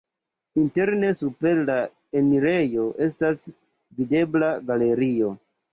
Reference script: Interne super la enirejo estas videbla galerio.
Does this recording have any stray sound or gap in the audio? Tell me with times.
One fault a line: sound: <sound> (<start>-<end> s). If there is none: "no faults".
no faults